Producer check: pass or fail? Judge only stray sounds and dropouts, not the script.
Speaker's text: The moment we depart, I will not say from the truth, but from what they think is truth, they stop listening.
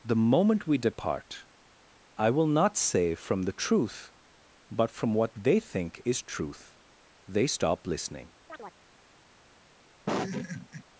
fail